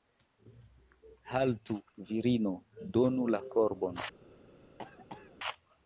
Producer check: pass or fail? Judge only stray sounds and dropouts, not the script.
fail